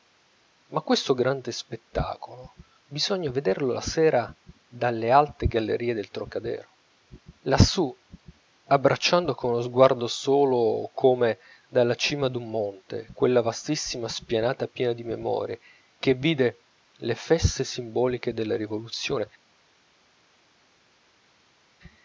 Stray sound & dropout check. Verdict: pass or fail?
pass